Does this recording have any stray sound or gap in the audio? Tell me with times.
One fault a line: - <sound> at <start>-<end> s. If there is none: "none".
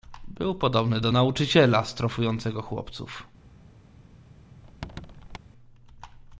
- squeak at 4.6-5.4 s